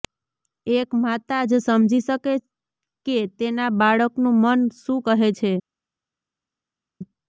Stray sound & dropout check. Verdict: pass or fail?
pass